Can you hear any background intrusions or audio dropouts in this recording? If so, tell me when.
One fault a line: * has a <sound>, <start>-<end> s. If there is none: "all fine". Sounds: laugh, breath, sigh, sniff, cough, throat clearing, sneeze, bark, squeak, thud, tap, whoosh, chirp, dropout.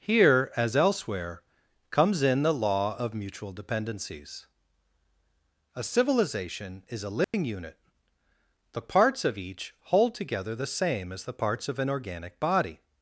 * has a dropout, 7.2-7.3 s